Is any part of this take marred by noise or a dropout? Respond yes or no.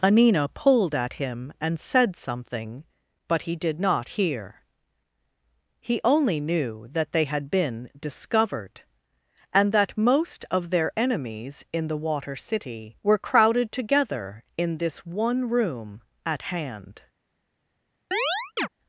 yes